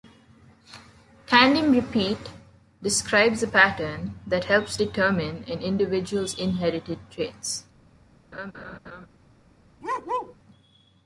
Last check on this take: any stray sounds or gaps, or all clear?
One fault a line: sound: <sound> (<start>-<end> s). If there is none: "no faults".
sound: laugh (8.3-9.1 s)
sound: bark (9.8-10.4 s)